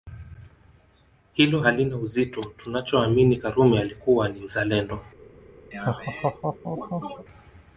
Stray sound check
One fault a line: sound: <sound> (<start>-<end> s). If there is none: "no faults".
sound: laugh (5.7-7.2 s)